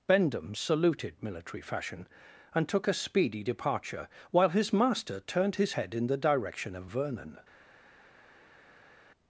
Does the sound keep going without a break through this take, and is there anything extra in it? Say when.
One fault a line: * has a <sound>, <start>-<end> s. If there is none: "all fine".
all fine